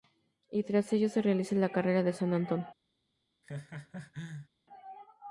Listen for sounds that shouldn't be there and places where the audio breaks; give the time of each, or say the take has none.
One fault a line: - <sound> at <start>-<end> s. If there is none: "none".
- laugh at 3.4-4.5 s